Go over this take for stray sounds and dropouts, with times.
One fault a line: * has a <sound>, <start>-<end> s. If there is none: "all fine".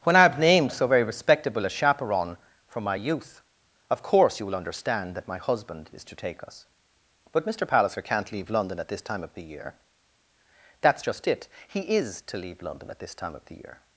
all fine